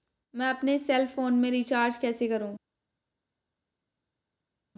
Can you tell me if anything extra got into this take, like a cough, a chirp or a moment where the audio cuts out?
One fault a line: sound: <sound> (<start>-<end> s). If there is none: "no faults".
no faults